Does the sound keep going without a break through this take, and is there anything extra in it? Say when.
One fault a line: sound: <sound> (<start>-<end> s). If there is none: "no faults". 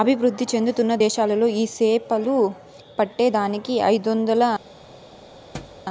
sound: thud (5.5-5.9 s)